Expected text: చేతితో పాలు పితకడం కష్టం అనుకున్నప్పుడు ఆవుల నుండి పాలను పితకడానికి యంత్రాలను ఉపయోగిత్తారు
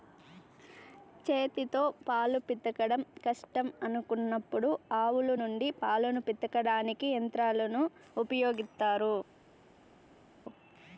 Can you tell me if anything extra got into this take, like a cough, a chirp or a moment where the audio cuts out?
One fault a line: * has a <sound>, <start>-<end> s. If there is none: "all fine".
all fine